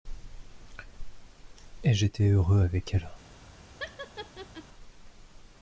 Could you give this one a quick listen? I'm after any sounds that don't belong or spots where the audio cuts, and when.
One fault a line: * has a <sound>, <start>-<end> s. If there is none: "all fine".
* has a laugh, 3.8-4.6 s